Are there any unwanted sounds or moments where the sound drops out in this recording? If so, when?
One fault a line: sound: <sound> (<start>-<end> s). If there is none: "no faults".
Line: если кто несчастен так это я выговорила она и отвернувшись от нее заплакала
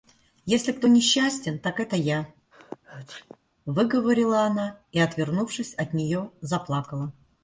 sound: sneeze (2.5-3.4 s)